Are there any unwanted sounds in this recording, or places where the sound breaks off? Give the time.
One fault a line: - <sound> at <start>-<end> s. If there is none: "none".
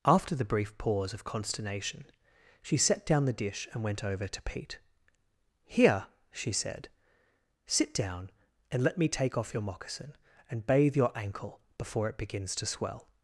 none